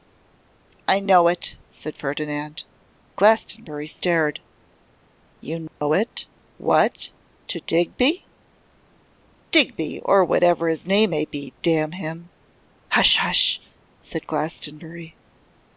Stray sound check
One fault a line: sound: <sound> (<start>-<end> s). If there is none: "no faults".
sound: dropout (5.7-5.8 s)